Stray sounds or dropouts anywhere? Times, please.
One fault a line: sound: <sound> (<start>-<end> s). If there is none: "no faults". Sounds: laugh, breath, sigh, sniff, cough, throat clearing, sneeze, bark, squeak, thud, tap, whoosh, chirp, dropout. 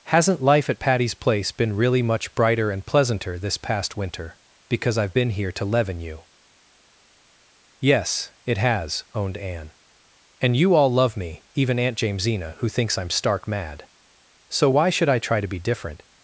no faults